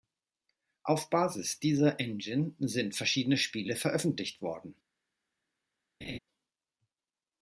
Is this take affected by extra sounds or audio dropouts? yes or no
yes